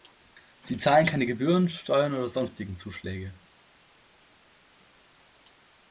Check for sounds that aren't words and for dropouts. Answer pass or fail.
pass